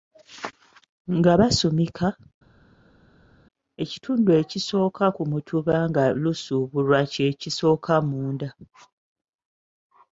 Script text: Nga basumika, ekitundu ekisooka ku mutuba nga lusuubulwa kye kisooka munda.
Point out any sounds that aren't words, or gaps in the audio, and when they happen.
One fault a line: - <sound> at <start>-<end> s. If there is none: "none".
none